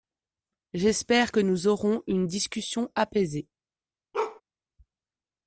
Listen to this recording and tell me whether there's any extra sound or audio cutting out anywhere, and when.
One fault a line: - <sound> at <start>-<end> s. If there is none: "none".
- bark at 4.1-4.4 s